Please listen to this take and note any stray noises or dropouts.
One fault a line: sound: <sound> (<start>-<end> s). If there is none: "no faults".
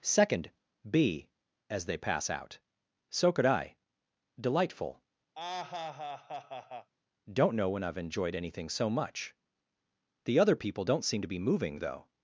sound: laugh (5.4-6.9 s)